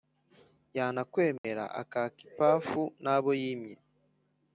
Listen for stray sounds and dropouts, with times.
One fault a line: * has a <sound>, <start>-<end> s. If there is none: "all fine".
* has a dropout, 1.4-1.4 s